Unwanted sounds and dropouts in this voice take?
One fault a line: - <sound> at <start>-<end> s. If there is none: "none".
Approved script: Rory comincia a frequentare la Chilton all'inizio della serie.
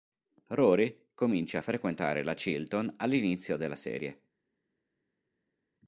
none